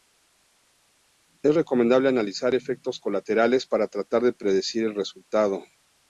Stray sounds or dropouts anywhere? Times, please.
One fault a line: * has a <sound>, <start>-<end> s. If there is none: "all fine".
all fine